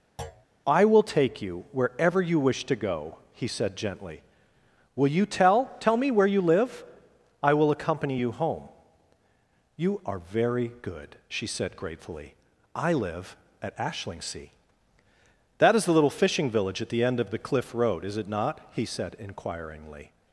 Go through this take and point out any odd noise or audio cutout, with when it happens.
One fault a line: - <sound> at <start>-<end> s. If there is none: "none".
- thud at 0.2-0.5 s